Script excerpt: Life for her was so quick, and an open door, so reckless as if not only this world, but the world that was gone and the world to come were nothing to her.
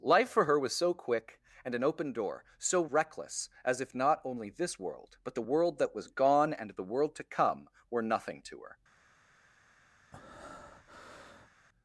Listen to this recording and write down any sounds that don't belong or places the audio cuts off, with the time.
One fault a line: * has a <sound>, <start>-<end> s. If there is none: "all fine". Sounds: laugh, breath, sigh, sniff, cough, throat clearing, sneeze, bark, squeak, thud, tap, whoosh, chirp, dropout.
* has a breath, 10.1-11.5 s